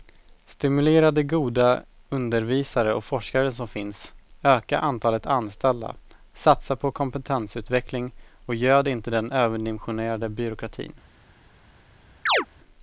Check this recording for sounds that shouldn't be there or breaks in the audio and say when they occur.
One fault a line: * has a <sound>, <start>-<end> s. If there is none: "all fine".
* has a chirp, 12.3-12.5 s